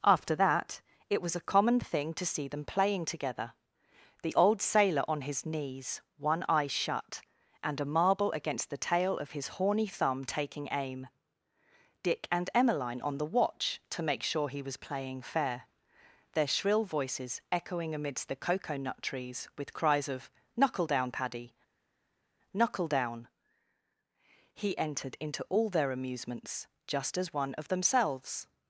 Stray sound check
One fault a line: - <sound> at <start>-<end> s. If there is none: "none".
none